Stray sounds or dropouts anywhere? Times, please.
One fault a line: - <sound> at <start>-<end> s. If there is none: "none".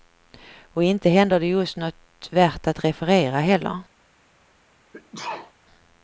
- sneeze at 4.9-5.5 s